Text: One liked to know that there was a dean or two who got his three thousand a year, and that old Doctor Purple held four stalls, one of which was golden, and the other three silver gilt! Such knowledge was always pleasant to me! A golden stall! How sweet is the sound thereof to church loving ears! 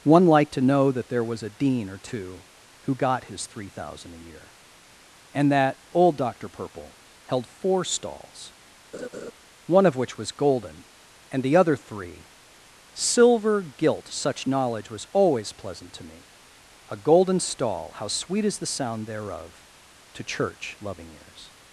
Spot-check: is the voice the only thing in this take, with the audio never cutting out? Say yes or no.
no